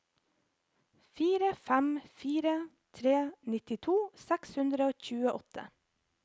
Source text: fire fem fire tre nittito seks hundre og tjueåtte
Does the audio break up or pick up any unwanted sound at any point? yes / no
no